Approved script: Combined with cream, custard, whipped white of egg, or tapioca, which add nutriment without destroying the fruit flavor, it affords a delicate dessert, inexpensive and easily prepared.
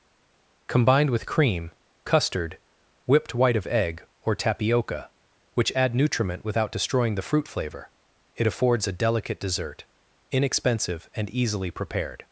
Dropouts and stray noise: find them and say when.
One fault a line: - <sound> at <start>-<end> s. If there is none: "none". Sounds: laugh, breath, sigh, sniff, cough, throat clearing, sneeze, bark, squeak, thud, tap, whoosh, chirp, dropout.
none